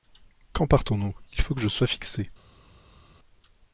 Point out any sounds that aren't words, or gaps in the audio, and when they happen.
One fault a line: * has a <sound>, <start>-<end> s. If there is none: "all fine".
all fine